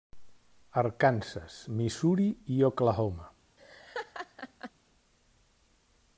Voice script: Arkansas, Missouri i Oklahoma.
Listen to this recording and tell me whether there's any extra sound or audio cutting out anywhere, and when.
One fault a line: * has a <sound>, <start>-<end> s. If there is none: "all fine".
* has a laugh, 3.6-4.7 s